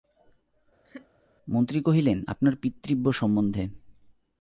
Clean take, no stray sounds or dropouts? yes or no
no